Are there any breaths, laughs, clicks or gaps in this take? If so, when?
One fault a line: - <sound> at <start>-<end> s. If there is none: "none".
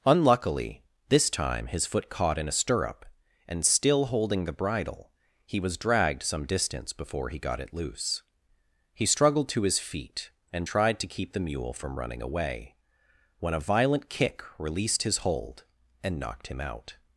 none